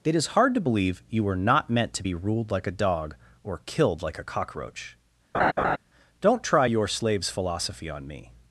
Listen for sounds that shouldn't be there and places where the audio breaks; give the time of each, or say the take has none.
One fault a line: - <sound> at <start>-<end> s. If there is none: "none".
- laugh at 5.3-5.8 s